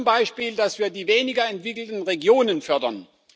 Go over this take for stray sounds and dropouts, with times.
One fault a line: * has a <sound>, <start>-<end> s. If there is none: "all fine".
all fine